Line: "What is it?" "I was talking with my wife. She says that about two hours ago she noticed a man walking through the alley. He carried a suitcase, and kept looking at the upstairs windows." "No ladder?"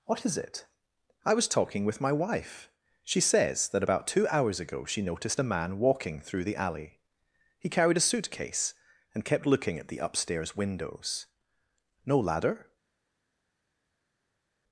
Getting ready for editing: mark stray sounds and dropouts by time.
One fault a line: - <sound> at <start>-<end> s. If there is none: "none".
none